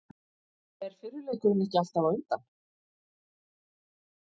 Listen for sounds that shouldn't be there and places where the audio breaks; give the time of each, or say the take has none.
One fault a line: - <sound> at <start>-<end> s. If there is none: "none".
none